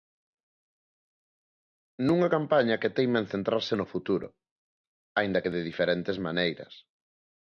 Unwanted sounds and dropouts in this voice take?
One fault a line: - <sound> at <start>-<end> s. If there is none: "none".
none